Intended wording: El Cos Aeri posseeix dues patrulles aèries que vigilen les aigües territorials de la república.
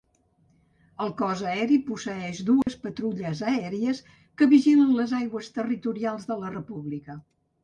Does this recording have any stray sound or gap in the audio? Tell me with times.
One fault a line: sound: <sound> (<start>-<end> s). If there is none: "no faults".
sound: dropout (2.6-2.7 s)